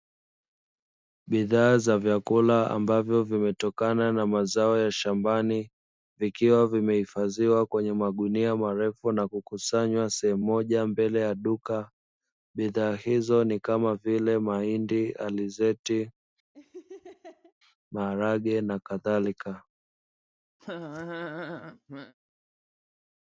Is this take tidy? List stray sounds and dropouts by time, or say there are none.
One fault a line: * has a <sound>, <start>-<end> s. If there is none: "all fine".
* has a laugh, 16.5-17.5 s
* has a laugh, 20.6-22.1 s